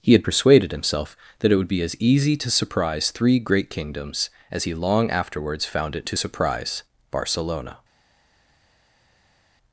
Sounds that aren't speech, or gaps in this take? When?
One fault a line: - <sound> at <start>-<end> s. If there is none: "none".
none